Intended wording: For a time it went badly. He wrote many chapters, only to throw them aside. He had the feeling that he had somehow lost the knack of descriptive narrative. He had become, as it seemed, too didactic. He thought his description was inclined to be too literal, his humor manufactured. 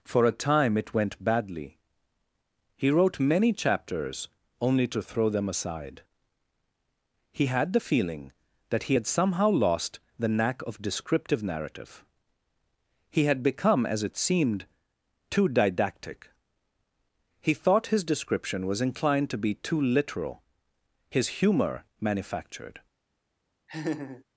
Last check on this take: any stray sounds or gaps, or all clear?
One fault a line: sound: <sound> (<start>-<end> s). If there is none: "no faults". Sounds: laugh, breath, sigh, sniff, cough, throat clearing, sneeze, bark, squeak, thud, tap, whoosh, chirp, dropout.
sound: laugh (23.7-24.2 s)